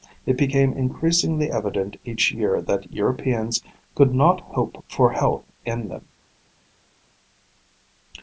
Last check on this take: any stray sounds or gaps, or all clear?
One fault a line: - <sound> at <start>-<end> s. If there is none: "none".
none